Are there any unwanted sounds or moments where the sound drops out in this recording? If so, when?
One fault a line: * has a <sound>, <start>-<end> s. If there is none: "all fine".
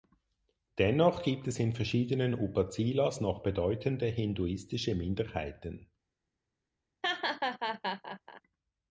* has a laugh, 7.0-8.4 s